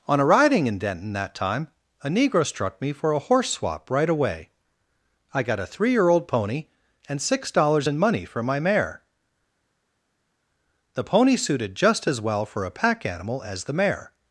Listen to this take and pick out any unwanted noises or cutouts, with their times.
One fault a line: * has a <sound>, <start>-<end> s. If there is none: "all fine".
all fine